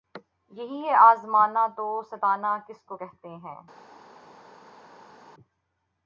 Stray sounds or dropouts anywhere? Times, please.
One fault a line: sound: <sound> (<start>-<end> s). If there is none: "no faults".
no faults